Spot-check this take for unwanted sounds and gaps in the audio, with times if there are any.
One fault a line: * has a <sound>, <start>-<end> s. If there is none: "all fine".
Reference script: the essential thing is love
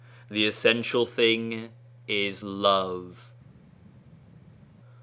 all fine